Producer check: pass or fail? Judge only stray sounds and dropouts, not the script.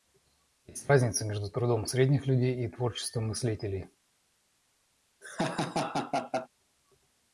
fail